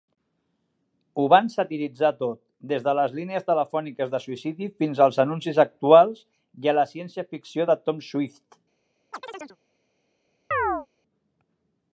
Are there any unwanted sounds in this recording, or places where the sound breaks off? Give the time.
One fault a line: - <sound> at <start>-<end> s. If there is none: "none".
- chirp at 9.1-9.6 s
- chirp at 10.5-10.9 s